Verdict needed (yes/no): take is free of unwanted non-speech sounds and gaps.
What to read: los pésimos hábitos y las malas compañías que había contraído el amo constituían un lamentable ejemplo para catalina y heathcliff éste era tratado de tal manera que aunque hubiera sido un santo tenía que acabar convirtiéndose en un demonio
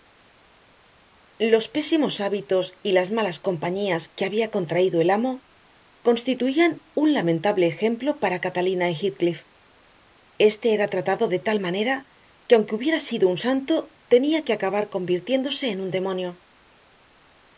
yes